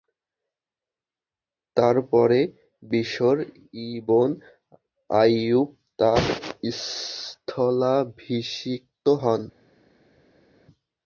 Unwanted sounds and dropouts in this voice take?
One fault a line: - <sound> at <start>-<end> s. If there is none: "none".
none